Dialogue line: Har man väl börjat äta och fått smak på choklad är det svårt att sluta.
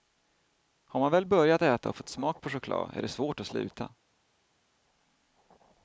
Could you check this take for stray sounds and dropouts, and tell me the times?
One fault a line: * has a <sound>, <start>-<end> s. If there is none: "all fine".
all fine